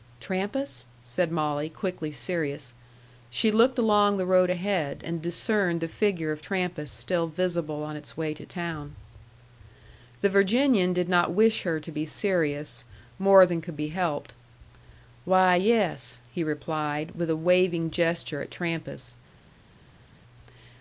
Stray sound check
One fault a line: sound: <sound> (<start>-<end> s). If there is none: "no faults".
no faults